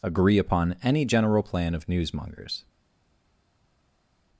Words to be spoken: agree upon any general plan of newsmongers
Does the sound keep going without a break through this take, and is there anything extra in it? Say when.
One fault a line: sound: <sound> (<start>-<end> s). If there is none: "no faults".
no faults